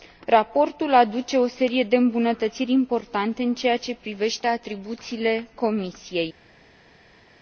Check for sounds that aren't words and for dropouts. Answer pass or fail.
pass